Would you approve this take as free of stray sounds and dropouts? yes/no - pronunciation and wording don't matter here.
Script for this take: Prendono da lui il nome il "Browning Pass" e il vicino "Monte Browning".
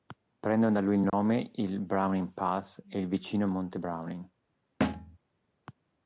no